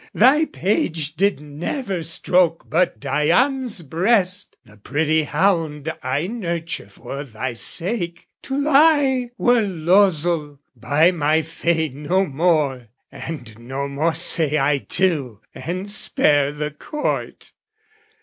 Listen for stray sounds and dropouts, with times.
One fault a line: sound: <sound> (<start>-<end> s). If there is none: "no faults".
no faults